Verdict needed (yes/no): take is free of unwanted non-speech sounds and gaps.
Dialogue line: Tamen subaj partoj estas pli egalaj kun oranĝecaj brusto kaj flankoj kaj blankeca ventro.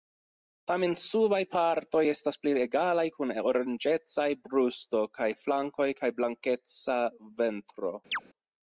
no